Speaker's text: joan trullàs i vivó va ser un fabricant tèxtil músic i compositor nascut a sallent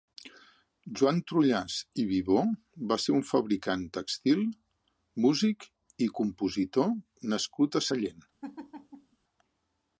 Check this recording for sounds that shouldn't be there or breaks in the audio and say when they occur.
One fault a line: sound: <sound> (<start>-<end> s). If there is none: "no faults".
sound: laugh (8.4-9.2 s)